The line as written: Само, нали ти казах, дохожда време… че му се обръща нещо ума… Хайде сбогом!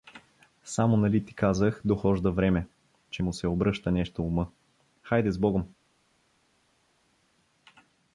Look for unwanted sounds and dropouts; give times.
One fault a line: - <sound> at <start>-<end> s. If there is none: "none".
none